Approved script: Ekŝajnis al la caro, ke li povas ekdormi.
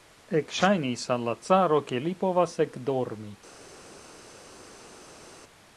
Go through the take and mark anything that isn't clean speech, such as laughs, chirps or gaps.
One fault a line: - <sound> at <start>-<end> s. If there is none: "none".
none